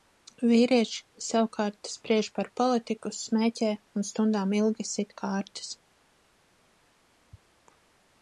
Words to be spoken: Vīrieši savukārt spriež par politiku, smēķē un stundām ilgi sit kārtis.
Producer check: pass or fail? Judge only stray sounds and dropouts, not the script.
pass